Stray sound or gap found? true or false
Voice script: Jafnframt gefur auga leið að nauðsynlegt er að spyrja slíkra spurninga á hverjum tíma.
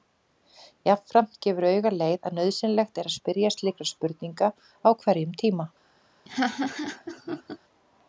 true